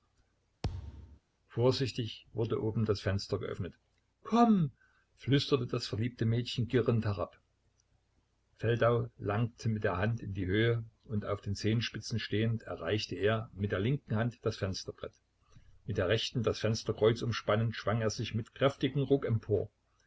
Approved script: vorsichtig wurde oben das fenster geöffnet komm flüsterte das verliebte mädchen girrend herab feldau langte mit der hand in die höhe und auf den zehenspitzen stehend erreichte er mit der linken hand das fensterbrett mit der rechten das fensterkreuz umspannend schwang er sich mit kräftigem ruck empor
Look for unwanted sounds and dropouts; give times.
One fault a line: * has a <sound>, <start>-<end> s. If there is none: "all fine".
* has a thud, 0.6-1.2 s